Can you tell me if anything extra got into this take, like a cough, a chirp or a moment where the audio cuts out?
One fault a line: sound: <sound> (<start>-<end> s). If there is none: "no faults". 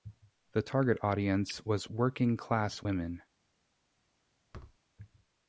sound: thud (4.5-4.8 s)